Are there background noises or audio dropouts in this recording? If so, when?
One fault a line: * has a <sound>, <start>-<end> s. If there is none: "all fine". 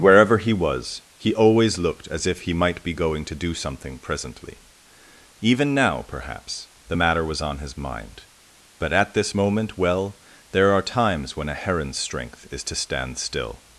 all fine